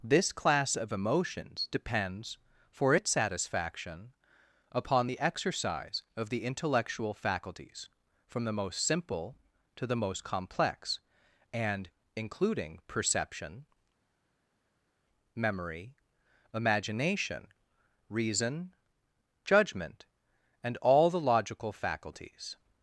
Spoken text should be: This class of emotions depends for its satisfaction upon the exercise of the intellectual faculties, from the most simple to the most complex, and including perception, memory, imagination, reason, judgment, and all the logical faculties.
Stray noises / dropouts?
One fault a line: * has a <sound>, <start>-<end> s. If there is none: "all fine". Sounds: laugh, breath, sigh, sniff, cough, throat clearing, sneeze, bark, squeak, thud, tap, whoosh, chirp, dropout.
all fine